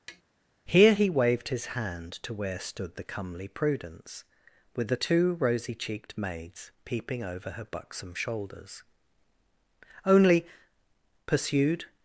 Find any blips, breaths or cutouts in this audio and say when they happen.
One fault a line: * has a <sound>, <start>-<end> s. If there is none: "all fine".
* has a tap, 0.1-0.2 s